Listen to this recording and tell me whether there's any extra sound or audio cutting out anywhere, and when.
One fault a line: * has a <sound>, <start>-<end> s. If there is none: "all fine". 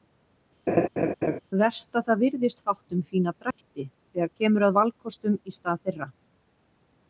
* has a laugh, 0.7-1.4 s
* has a dropout, 3.5-3.6 s